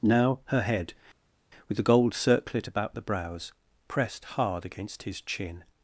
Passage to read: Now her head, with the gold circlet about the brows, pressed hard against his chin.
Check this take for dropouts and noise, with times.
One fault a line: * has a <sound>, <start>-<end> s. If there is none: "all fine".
all fine